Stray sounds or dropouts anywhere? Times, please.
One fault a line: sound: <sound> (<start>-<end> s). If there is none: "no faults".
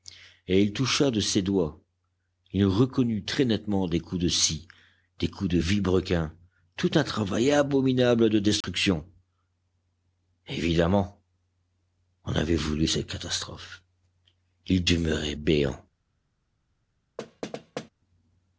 sound: dropout (8.6-8.6 s)
sound: thud (17.2-17.9 s)